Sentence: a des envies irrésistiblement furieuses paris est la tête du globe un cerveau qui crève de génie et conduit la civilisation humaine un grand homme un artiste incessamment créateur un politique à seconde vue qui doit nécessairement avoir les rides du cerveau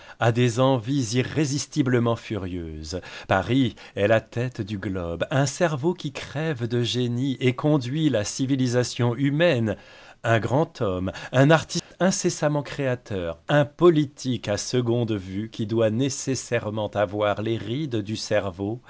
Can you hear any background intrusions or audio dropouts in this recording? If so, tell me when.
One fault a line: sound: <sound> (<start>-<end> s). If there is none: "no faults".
sound: dropout (11.8-11.9 s)